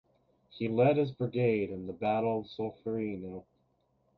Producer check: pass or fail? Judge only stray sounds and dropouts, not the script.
pass